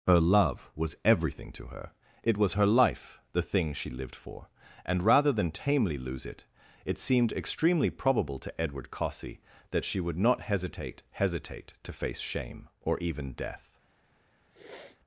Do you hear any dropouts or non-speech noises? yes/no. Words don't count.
yes